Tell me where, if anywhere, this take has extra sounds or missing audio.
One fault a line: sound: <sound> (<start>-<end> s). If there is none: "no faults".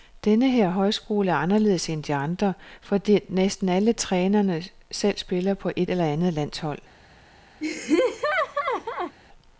sound: laugh (7.6-9.2 s)